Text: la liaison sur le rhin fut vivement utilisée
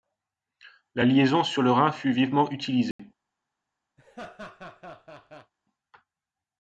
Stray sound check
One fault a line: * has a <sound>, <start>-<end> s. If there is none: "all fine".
* has a dropout, 2.9-3.0 s
* has a laugh, 4.0-5.5 s